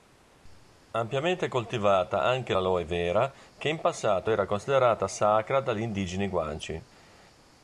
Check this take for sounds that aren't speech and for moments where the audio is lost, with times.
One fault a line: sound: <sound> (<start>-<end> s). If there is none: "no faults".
no faults